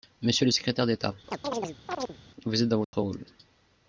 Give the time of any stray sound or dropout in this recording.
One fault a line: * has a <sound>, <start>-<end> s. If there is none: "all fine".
* has a chirp, 1.3-2.2 s
* has a dropout, 2.8-2.9 s